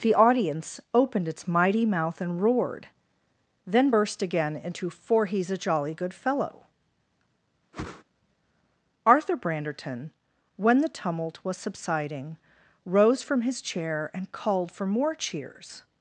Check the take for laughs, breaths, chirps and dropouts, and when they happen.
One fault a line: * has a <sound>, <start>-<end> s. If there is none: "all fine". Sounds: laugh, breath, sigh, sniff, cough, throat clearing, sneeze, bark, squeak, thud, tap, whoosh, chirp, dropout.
* has a whoosh, 7.7-8.0 s